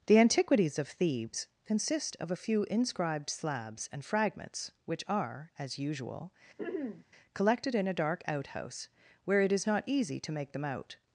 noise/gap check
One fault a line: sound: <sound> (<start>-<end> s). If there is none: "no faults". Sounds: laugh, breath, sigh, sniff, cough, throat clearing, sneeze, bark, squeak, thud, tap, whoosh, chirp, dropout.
sound: throat clearing (6.6-7.0 s)